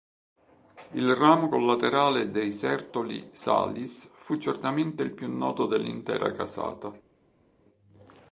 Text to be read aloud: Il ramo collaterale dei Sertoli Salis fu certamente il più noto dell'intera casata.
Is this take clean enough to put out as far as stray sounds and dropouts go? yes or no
yes